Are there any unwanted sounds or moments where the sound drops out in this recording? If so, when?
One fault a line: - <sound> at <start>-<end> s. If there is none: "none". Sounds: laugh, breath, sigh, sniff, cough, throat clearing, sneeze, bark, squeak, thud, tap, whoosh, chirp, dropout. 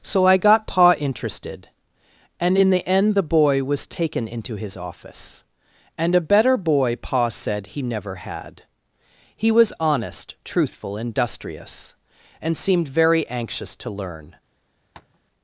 - tap at 14.9-15.2 s